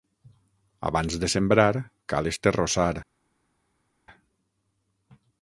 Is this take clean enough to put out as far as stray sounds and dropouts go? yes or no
yes